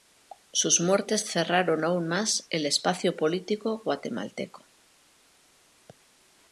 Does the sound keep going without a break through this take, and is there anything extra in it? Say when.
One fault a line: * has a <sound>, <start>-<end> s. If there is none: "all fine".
all fine